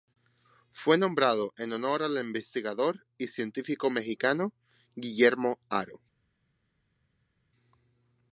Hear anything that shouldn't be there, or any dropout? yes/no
no